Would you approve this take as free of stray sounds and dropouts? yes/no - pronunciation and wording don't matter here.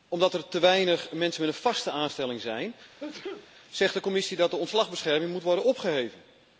no